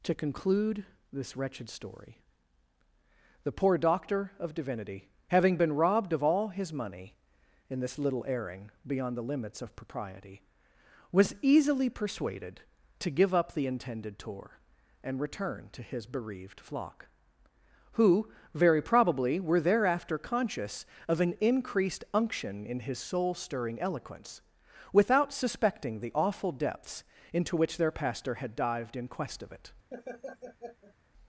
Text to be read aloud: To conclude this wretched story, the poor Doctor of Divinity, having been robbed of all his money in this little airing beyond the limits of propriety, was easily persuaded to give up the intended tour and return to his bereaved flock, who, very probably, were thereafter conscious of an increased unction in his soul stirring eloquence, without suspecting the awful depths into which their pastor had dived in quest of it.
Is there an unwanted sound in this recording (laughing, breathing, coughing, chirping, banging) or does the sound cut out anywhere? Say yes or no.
yes